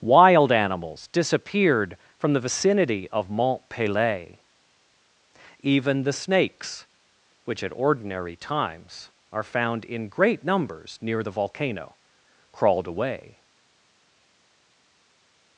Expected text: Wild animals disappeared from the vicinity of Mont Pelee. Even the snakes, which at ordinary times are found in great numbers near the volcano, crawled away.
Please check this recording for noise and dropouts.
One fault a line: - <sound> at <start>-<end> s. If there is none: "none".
none